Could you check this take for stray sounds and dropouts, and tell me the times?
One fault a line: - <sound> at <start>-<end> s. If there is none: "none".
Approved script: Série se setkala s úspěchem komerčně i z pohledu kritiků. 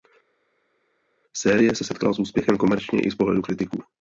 none